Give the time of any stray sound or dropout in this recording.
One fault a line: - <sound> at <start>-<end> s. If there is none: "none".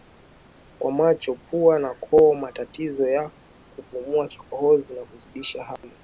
- dropout at 5.8-5.8 s